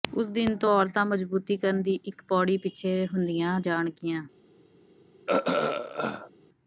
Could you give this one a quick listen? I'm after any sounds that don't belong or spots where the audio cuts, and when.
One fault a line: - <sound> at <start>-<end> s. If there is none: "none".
- throat clearing at 5.3-6.3 s